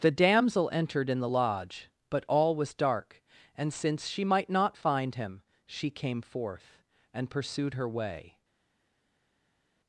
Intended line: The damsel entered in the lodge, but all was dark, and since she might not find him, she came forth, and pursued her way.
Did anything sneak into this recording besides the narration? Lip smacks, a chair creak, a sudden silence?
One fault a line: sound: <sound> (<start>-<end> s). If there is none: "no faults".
no faults